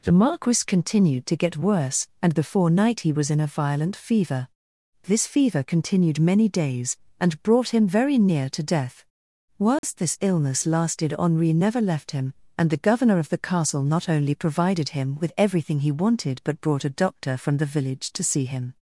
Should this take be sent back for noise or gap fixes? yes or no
yes